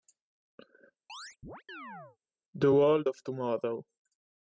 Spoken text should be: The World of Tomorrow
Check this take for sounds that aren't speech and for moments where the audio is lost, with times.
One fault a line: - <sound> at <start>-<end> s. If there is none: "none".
- chirp at 1.1-2.2 s